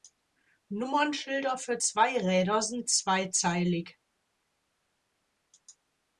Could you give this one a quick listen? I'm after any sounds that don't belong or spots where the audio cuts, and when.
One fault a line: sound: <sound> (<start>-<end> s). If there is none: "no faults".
no faults